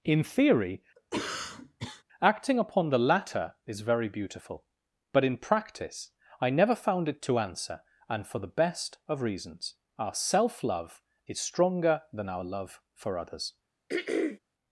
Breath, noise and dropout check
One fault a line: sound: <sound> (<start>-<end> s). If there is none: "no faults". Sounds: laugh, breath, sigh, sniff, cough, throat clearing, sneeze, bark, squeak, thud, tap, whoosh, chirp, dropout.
sound: cough (1.0-2.0 s)
sound: throat clearing (13.9-14.4 s)